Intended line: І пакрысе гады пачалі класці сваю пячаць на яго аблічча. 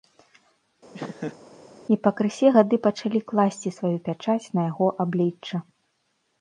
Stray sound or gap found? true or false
true